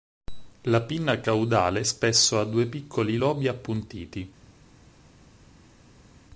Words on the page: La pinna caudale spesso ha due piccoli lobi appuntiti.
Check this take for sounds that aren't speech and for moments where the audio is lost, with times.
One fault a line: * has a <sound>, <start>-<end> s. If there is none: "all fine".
all fine